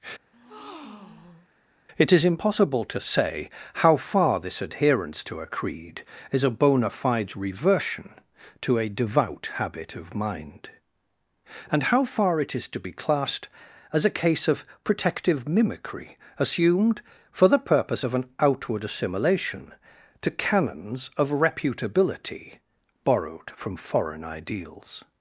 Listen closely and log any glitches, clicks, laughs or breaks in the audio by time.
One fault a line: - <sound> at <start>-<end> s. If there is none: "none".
- breath at 0.3-1.5 s